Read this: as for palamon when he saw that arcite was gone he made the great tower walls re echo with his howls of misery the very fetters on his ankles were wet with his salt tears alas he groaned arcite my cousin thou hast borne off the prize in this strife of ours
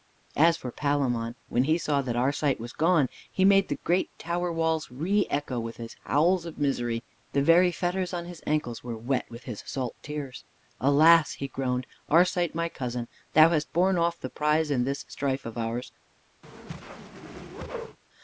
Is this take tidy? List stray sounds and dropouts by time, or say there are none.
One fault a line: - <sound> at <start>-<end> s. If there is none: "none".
- whoosh at 16.4-18.0 s